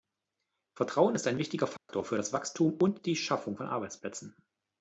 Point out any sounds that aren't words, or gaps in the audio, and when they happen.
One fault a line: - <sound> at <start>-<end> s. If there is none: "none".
- dropout at 1.8-1.9 s